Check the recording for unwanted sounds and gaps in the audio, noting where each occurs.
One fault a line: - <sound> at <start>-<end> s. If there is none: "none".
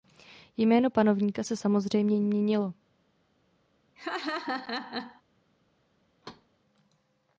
- laugh at 4.0-5.2 s
- thud at 6.2-6.5 s